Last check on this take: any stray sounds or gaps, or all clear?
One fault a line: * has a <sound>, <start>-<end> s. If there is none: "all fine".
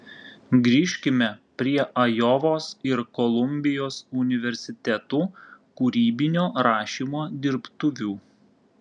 all fine